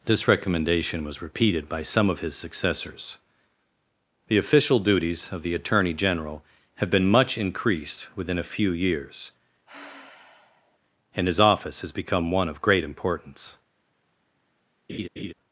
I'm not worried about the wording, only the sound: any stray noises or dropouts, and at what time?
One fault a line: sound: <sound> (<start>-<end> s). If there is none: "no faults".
sound: sigh (9.7-10.8 s)
sound: laugh (14.9-15.3 s)